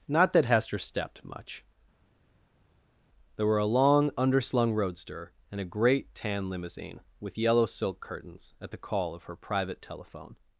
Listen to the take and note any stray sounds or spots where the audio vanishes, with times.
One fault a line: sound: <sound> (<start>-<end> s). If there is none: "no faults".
no faults